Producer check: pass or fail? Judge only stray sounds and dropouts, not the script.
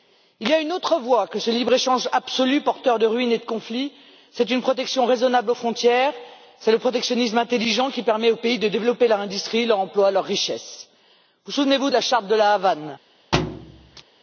fail